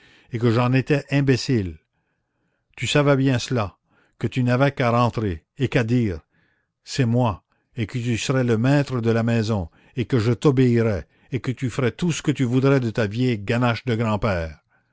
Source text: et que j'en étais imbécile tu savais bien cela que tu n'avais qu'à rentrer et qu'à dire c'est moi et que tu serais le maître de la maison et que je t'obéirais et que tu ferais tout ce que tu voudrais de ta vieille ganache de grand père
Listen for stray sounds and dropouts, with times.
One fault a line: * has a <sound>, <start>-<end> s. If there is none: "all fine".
all fine